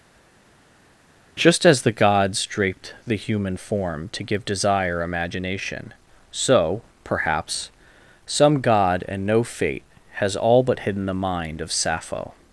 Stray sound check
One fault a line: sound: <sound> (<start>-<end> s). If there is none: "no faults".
no faults